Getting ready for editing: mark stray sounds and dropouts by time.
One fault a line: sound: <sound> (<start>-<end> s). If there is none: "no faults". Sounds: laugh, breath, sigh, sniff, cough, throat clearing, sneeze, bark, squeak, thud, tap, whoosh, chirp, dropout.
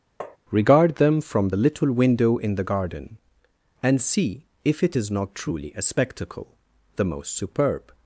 sound: tap (0.2-0.4 s)